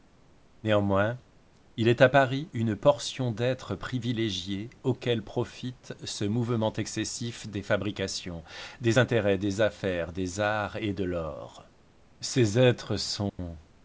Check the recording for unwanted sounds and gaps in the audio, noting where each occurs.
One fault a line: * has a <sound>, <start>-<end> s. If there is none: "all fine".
* has a dropout, 13.3-13.4 s